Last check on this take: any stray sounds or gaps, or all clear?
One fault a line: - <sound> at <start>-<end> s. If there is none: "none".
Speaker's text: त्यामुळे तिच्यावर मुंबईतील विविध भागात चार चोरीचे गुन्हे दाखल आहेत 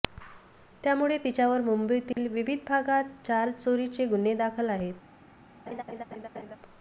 - dropout at 2.1-2.2 s
- laugh at 5.7-6.6 s